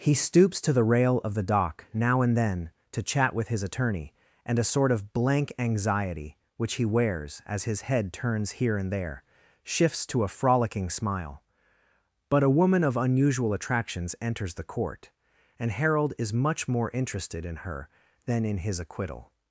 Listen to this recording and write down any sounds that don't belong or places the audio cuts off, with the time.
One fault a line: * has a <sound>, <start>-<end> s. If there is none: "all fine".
all fine